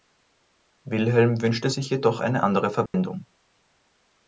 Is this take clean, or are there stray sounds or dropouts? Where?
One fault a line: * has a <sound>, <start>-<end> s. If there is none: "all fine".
* has a dropout, 2.9-2.9 s